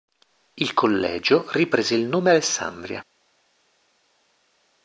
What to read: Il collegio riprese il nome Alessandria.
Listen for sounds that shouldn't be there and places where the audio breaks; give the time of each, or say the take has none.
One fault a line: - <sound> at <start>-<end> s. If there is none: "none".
none